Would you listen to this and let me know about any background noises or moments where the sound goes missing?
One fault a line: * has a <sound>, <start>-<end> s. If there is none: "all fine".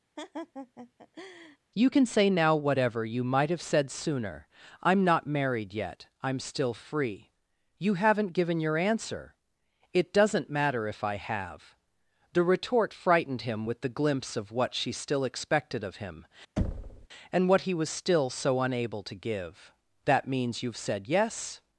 * has a laugh, 0.2-1.6 s
* has a thud, 16.6-17.1 s